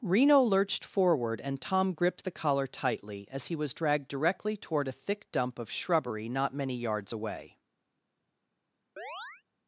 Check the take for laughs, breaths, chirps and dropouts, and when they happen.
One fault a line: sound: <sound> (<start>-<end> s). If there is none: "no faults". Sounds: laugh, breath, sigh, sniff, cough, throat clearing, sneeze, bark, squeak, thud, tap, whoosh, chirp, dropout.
sound: chirp (9.0-9.4 s)